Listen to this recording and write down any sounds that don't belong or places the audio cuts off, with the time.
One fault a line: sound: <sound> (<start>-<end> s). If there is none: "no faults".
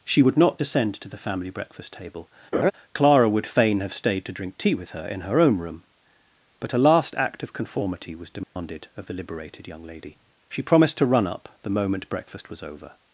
sound: laugh (2.5-2.7 s)
sound: dropout (8.4-8.6 s)